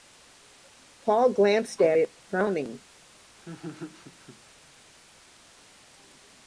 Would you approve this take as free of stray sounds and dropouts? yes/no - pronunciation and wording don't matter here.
no